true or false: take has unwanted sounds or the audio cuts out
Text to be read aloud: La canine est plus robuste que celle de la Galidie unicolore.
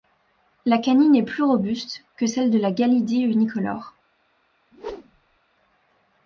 true